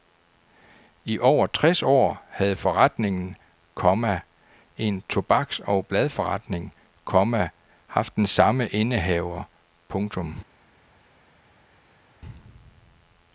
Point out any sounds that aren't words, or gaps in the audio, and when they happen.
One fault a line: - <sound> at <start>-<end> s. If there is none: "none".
none